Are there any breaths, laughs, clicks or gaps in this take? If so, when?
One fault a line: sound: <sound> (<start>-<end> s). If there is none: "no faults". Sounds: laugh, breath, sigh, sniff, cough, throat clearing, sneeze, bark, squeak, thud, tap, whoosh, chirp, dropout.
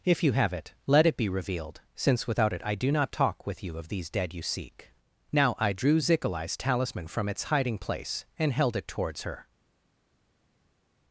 no faults